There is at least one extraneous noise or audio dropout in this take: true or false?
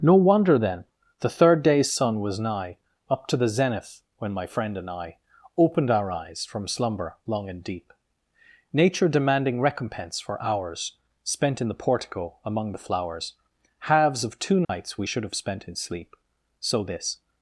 true